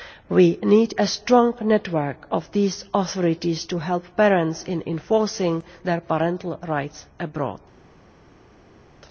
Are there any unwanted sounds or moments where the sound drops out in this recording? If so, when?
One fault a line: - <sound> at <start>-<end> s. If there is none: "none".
none